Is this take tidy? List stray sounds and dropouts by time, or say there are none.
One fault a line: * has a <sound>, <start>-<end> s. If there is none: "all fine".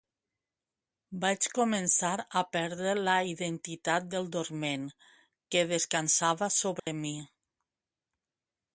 * has a dropout, 6.8-6.9 s